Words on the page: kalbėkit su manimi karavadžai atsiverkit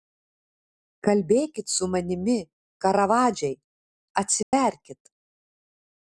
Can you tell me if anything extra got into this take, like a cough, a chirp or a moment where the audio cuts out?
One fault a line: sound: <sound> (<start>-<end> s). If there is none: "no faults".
sound: dropout (4.4-4.5 s)